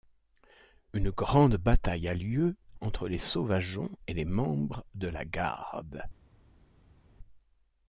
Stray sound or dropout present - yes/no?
no